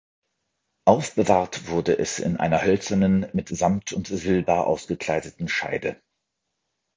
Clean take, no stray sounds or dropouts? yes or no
yes